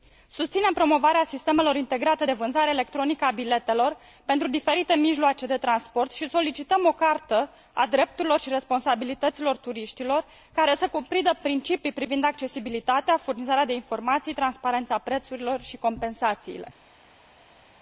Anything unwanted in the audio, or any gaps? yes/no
no